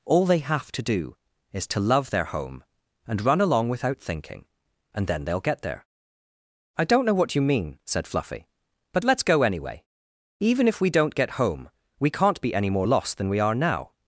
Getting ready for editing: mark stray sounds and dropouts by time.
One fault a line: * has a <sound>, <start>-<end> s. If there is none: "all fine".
all fine